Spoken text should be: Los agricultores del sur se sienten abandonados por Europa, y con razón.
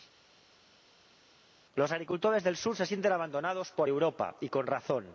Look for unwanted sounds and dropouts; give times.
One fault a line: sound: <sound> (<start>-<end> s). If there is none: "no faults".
no faults